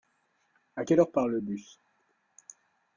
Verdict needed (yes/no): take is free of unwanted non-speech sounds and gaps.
yes